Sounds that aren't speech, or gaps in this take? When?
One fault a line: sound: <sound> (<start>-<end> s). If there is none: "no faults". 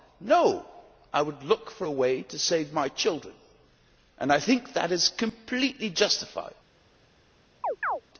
sound: chirp (7.6-8.0 s)